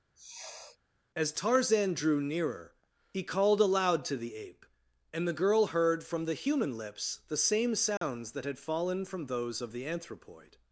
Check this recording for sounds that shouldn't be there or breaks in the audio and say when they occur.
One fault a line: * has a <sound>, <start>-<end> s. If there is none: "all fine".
* has a sniff, 0.2-0.8 s
* has a dropout, 8.0-8.0 s